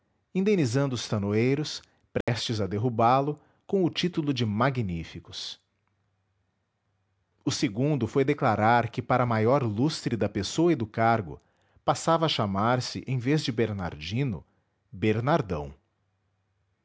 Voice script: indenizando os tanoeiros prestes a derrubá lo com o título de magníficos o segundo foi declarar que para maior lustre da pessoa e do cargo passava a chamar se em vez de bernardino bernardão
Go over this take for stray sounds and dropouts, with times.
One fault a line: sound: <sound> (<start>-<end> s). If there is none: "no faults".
sound: dropout (2.2-2.3 s)